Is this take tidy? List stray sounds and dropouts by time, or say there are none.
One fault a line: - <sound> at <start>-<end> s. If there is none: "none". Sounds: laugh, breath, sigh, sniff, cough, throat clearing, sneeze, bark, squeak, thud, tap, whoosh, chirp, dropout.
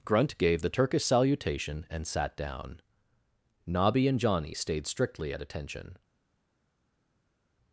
none